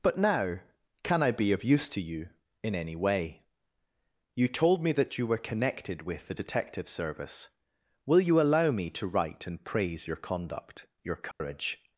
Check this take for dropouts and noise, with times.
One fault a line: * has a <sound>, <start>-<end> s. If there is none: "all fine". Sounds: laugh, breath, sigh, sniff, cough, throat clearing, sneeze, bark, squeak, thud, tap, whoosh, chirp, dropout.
* has a dropout, 11.3-11.4 s